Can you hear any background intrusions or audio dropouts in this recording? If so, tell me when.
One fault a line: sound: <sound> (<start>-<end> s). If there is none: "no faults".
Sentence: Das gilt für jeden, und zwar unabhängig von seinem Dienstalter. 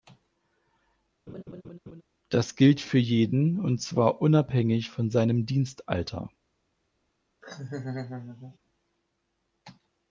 sound: laugh (1.3-2.0 s)
sound: laugh (7.4-8.6 s)